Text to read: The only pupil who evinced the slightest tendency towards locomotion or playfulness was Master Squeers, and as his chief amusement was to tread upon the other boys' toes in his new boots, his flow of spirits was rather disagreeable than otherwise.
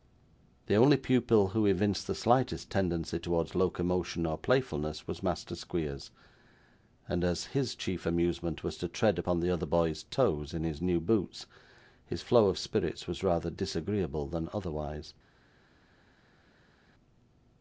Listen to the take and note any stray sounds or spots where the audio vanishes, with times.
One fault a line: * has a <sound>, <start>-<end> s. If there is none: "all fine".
all fine